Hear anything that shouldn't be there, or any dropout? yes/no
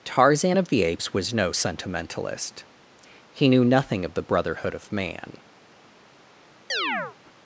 yes